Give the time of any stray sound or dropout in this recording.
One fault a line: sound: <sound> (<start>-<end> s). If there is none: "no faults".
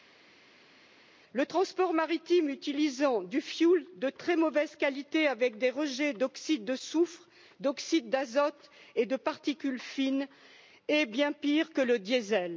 no faults